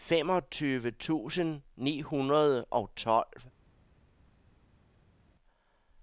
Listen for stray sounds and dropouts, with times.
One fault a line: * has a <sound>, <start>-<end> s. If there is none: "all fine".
all fine